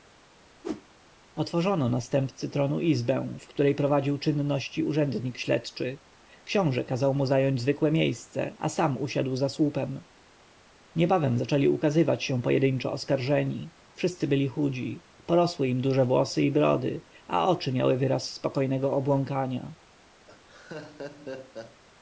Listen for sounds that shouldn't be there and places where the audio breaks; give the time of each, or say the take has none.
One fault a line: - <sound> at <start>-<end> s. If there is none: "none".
- whoosh at 0.6-0.8 s
- laugh at 20.3-21.8 s